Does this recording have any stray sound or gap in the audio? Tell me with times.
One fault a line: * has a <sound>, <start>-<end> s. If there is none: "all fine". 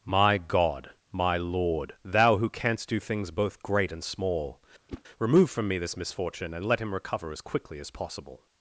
* has a whoosh, 4.9-5.0 s